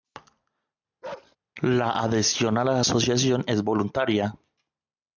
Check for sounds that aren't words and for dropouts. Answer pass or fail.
fail